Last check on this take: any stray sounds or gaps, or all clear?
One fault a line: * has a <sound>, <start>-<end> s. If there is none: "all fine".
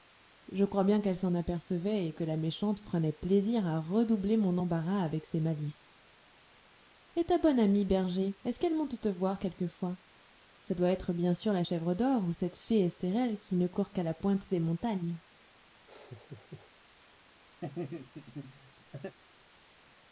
* has a laugh, 15.9-16.7 s
* has a laugh, 17.6-19.2 s